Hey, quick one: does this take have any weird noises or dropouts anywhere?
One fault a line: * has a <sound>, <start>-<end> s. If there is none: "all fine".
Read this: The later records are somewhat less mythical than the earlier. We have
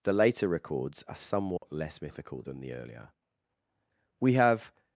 * has a dropout, 1.6-1.6 s